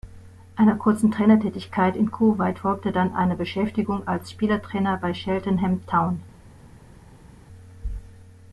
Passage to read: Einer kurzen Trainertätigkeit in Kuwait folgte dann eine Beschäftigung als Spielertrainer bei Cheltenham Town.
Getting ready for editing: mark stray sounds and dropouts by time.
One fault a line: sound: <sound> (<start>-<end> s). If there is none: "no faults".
no faults